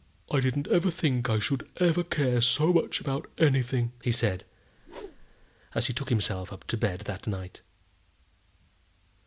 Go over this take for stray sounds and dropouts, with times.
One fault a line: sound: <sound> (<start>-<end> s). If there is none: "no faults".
sound: whoosh (4.8-5.5 s)